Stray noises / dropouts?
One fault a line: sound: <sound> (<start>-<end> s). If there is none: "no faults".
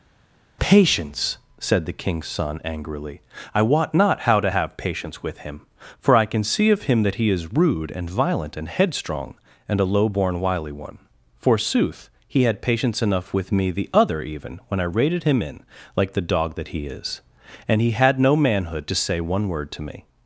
no faults